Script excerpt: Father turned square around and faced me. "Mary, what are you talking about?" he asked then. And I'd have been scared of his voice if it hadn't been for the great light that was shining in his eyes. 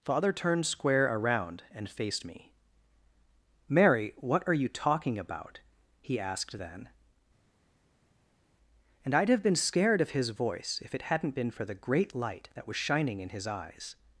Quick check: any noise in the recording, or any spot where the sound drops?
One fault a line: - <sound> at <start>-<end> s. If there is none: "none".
none